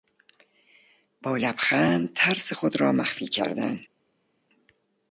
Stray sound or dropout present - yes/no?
no